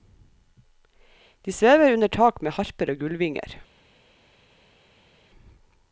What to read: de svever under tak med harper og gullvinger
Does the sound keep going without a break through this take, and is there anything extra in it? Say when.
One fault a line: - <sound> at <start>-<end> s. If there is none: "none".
none